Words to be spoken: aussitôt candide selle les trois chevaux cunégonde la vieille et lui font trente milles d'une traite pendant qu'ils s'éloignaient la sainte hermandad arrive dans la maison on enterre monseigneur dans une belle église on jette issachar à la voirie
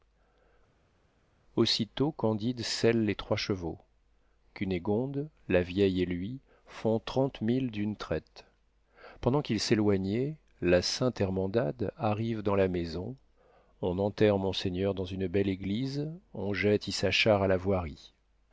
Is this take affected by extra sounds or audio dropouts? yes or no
no